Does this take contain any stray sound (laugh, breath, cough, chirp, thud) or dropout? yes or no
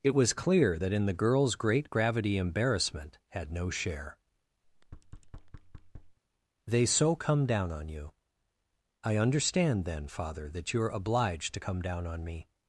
yes